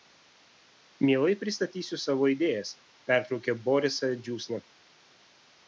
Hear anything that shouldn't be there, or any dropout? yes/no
no